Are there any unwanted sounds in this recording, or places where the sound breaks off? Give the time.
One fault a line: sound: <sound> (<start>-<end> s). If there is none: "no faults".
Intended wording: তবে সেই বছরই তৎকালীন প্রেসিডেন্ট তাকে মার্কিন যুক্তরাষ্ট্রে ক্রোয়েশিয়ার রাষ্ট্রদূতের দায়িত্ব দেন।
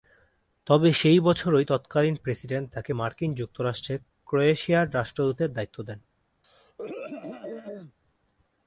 sound: throat clearing (6.4-7.9 s)